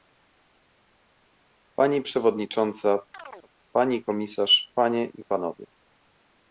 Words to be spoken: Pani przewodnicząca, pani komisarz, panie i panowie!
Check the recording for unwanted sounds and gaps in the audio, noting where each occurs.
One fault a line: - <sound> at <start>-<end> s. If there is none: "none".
- chirp at 3.1-3.5 s